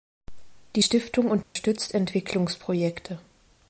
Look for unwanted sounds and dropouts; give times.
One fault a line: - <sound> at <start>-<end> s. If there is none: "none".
- dropout at 1.4-1.6 s